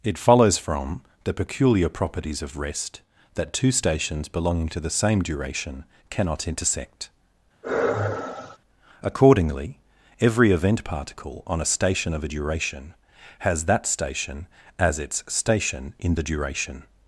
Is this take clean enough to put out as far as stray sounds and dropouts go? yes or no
no